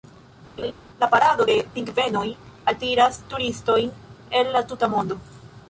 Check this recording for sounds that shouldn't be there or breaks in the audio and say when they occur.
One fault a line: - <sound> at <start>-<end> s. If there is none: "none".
- laugh at 0.6-0.7 s